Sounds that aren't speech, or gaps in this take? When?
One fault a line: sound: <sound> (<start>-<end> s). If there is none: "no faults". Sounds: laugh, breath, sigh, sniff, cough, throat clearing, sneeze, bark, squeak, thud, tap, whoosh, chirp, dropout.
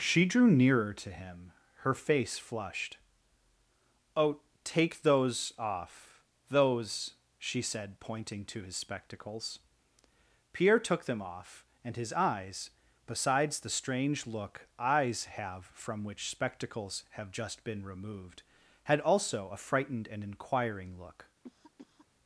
sound: cough (21.4-22.1 s)